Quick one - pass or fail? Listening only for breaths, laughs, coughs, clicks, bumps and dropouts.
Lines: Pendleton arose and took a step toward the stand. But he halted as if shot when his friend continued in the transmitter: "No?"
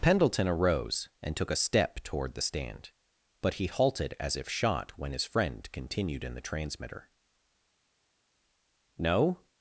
pass